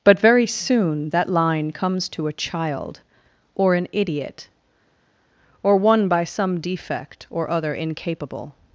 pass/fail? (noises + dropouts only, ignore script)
pass